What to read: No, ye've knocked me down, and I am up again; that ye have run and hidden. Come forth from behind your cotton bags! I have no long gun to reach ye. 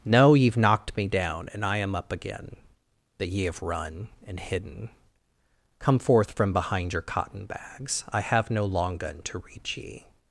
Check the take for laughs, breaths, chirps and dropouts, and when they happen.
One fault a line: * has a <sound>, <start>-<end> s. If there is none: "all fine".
all fine